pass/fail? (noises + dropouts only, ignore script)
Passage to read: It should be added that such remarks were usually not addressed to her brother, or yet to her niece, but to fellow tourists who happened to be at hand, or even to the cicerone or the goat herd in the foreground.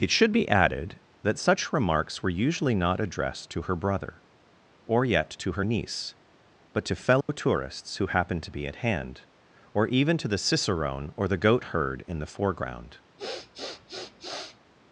fail